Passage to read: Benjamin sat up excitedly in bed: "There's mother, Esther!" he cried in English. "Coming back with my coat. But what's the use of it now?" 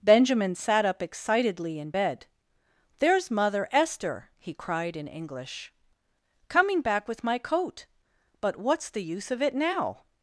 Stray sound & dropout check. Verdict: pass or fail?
pass